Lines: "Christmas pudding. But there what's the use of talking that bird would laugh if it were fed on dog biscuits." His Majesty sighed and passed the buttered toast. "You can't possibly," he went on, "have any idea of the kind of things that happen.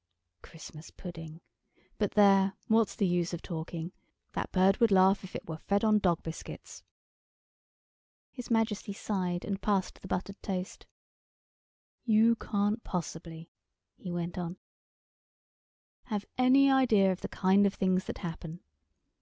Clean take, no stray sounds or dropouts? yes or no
yes